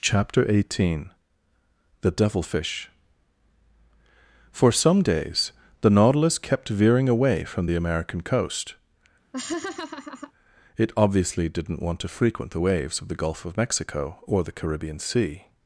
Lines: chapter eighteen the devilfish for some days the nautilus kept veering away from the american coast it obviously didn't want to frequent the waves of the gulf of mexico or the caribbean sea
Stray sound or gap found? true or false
true